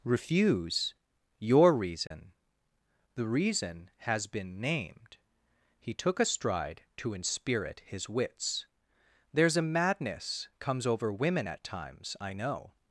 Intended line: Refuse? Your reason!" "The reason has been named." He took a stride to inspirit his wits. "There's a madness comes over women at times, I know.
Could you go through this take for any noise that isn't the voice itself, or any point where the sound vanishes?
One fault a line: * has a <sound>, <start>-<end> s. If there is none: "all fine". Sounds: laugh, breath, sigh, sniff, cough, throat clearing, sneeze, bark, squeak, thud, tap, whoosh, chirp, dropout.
* has a dropout, 2.1-2.1 s